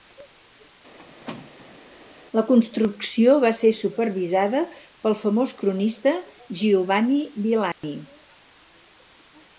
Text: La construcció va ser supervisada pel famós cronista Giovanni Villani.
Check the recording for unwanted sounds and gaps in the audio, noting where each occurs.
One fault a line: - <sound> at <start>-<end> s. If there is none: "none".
- squeak at 1.0-1.8 s
- dropout at 7.7-7.8 s